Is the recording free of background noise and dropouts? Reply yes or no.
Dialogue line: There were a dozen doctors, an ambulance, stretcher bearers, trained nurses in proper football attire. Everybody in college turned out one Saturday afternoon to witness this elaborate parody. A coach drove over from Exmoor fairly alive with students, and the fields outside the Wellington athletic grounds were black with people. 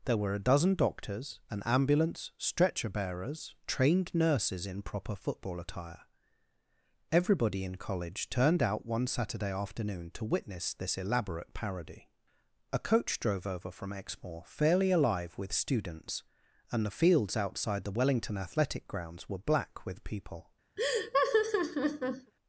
no